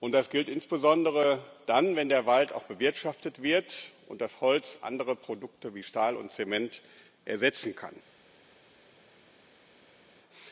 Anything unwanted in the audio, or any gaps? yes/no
no